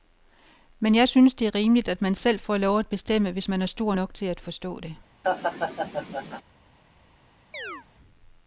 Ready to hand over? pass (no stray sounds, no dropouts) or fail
fail